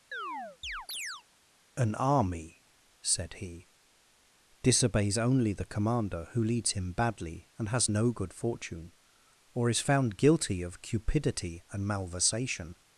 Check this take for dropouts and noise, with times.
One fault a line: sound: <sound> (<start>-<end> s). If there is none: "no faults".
sound: chirp (0.1-1.2 s)